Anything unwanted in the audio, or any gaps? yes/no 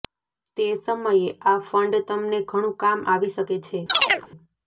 yes